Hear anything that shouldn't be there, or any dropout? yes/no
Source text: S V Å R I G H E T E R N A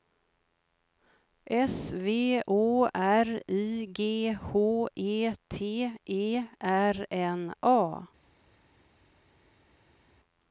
no